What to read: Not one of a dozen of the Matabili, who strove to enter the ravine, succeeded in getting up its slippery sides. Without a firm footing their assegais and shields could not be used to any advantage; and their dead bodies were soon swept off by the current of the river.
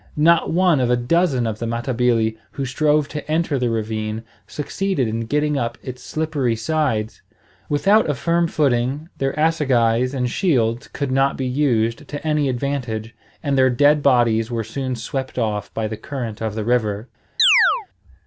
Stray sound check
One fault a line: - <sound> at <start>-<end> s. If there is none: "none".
- chirp at 17.4-17.9 s